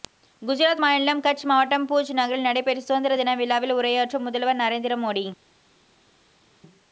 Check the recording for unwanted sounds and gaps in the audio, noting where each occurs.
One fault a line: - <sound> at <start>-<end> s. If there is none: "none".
none